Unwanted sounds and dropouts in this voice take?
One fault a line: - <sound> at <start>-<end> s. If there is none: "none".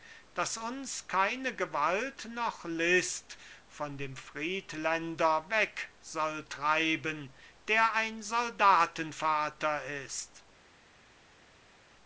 none